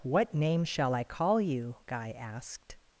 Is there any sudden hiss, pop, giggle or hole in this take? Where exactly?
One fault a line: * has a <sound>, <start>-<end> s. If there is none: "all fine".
all fine